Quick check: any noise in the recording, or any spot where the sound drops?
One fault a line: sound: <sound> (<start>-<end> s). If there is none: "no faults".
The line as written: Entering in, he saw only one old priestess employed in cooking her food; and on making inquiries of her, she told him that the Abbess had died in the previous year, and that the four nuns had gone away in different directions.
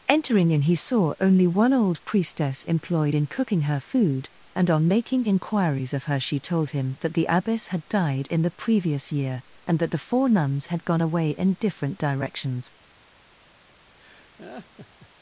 sound: laugh (14.0-15.1 s)